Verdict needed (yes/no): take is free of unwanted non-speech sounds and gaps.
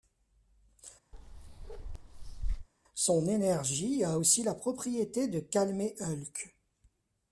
no